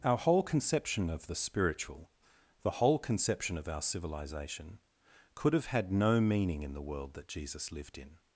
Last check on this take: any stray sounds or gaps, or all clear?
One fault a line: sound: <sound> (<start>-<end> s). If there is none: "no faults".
no faults